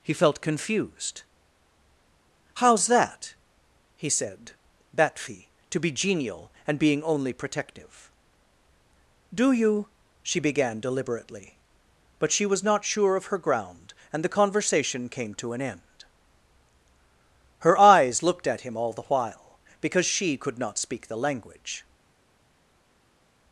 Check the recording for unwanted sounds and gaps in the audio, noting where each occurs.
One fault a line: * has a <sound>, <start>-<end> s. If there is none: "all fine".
all fine